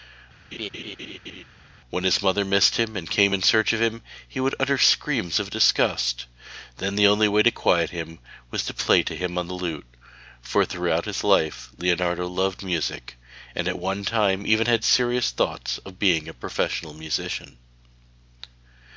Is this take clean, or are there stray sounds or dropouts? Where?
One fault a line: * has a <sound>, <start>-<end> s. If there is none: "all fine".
* has a laugh, 0.5-1.4 s